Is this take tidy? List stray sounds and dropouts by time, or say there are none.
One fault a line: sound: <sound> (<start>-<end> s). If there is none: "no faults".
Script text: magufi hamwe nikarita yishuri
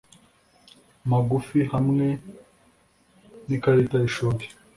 no faults